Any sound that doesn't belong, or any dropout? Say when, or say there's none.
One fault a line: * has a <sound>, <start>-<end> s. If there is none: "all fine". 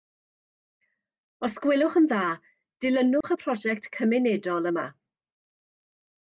* has a dropout, 3.2-3.2 s